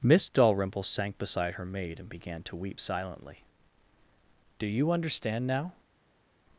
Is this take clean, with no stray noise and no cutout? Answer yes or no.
yes